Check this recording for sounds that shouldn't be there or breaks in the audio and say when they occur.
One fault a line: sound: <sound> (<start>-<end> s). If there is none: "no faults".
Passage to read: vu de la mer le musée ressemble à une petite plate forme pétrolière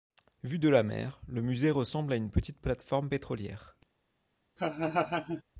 sound: laugh (4.6-5.4 s)